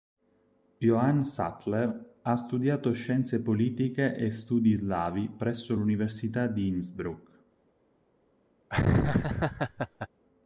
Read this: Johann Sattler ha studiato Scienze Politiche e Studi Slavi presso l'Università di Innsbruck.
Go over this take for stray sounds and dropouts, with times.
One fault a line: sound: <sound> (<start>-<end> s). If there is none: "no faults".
sound: laugh (8.7-10.1 s)